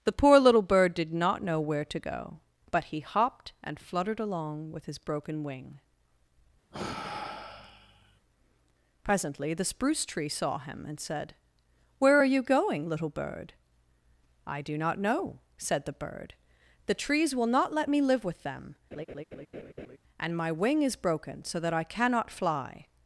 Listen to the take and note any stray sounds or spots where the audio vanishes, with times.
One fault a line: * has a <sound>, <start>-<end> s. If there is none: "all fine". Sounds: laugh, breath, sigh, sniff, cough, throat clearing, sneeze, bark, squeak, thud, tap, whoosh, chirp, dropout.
* has a sigh, 6.7-8.2 s
* has a laugh, 18.9-20.0 s